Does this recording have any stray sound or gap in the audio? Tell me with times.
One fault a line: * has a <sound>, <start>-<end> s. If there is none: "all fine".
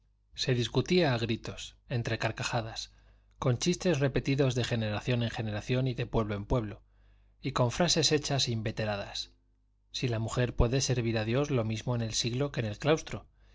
all fine